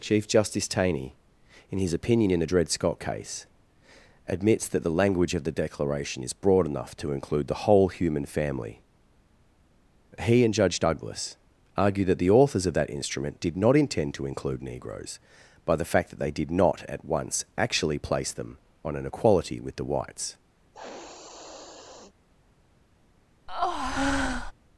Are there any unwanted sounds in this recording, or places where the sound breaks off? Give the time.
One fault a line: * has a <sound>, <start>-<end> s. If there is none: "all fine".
* has a sniff, 20.7-22.1 s
* has a breath, 23.5-24.5 s